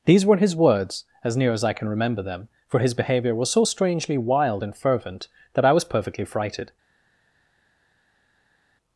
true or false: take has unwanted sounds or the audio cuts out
false